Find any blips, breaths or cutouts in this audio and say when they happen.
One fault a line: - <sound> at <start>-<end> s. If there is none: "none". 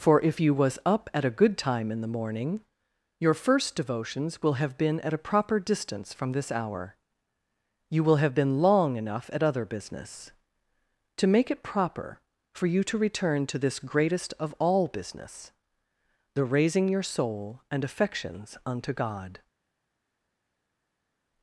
none